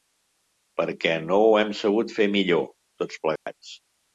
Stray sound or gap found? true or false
true